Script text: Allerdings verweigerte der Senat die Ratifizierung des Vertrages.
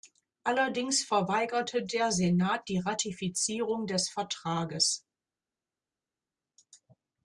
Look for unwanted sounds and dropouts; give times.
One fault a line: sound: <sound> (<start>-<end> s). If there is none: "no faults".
no faults